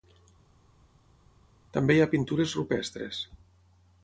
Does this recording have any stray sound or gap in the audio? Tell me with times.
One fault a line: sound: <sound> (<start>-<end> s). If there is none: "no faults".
no faults